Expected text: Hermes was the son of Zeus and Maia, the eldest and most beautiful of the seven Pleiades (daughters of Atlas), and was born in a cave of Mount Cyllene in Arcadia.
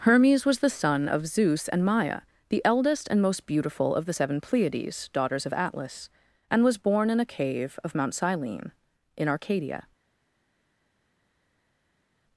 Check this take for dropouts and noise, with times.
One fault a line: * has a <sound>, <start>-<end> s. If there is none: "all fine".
all fine